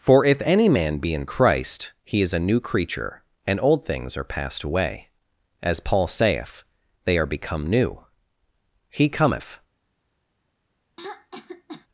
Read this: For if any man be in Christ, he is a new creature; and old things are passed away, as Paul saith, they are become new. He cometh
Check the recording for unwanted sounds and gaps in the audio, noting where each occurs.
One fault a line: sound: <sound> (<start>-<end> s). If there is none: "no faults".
sound: throat clearing (11.0-11.9 s)